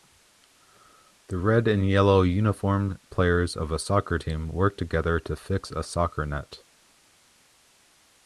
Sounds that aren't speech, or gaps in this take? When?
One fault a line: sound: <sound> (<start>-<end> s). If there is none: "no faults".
no faults